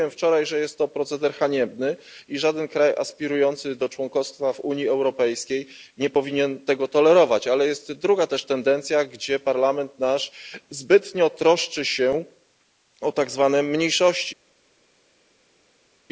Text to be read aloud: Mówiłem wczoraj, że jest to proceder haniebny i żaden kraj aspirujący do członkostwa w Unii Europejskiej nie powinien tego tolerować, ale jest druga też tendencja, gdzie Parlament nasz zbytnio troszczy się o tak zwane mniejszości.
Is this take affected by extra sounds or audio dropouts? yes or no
no